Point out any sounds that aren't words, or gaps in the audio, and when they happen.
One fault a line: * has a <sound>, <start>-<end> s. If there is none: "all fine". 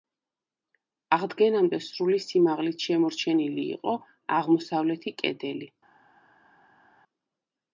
all fine